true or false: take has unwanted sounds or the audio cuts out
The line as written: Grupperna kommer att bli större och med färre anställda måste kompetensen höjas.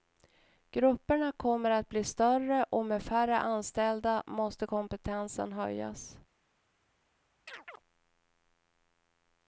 true